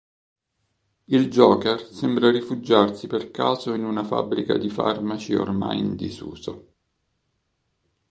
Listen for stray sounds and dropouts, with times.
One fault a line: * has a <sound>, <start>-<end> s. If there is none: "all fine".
all fine